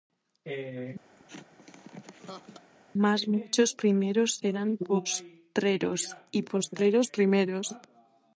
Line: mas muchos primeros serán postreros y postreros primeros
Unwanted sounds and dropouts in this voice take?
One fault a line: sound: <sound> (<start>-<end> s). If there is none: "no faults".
sound: laugh (1.2-2.7 s)